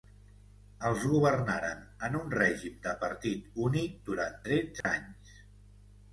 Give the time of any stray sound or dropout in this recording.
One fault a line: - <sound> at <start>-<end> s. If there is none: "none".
- dropout at 4.8-4.8 s